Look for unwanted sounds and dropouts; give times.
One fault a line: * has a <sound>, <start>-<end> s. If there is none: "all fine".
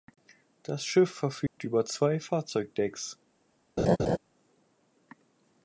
* has a dropout, 1.5-1.6 s
* has a laugh, 3.8-4.2 s